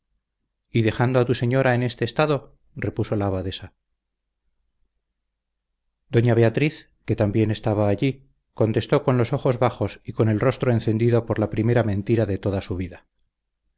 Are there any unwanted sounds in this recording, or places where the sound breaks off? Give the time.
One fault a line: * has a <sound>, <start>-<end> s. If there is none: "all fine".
all fine